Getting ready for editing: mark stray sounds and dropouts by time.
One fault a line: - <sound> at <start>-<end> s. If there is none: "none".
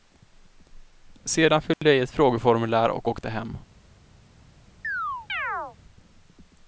- dropout at 1.7-1.8 s
- chirp at 4.8-5.8 s